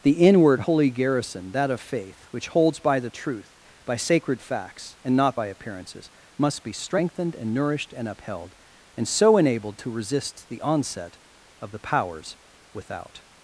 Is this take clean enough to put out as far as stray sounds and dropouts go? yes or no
yes